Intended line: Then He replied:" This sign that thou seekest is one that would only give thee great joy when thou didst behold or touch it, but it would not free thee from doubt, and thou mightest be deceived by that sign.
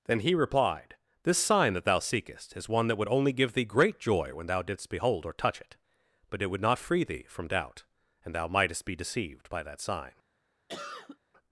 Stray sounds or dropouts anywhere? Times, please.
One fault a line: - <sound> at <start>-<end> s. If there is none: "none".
- cough at 10.7-11.2 s